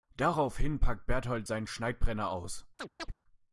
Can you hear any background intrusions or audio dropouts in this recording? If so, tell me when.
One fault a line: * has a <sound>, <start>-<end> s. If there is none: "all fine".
* has a chirp, 2.8-3.1 s